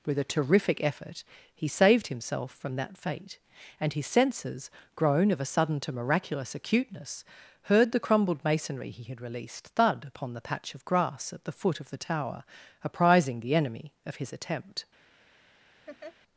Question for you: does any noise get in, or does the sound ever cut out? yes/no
yes